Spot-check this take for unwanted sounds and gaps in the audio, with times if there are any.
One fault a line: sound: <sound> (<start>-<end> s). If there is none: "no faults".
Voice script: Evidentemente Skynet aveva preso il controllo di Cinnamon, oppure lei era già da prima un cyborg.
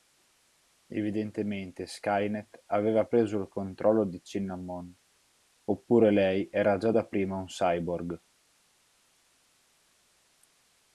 no faults